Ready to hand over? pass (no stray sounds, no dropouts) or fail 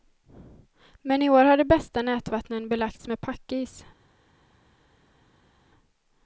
pass